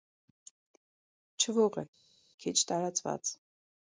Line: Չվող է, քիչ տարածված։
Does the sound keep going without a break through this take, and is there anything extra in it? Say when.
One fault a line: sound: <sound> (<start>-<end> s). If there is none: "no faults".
no faults